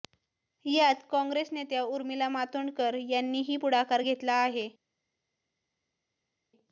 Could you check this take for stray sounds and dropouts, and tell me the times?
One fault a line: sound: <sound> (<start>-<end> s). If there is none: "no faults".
no faults